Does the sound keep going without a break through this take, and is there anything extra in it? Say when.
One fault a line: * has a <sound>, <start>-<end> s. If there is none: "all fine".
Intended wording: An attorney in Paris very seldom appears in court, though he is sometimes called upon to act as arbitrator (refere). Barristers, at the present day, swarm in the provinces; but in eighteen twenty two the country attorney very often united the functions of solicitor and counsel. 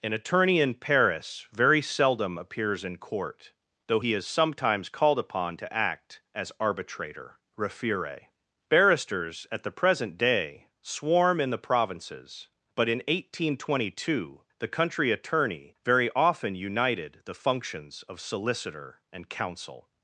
all fine